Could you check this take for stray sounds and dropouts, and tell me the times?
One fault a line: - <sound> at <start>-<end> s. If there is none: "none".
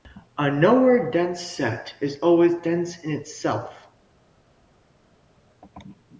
none